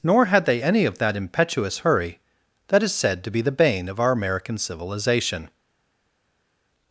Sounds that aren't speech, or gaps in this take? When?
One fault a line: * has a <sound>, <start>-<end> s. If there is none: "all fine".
all fine